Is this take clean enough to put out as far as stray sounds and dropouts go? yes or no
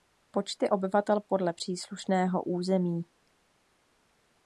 yes